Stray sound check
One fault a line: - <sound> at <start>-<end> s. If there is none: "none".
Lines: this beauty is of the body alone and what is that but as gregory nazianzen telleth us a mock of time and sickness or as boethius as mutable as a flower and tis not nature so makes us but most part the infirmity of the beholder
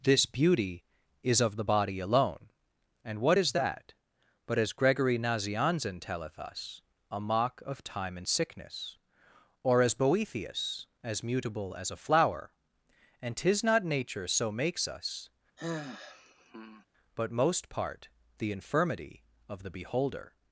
- sigh at 15.6-16.9 s